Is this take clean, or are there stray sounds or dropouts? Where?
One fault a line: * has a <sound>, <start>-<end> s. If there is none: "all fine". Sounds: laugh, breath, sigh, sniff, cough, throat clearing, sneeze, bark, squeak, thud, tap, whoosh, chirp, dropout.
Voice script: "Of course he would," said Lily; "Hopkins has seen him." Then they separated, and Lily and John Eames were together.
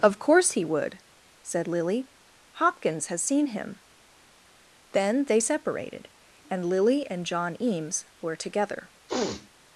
* has a sniff, 9.1-9.5 s